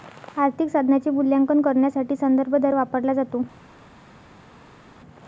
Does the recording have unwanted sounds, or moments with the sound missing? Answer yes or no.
no